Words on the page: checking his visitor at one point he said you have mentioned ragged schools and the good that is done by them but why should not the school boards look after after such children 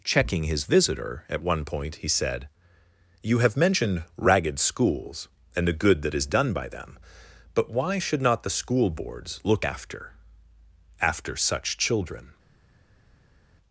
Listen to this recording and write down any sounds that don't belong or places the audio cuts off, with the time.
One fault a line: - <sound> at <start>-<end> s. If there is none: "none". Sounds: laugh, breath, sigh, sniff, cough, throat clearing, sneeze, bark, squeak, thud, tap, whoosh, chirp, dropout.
none